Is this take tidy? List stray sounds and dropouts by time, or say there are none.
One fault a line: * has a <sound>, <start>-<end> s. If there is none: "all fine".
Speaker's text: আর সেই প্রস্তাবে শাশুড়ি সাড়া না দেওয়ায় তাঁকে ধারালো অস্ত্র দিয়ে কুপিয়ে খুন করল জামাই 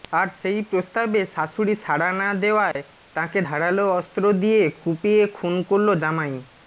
* has a dropout, 2.7-2.8 s